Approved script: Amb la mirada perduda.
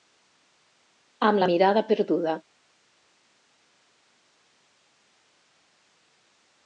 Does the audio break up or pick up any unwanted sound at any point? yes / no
no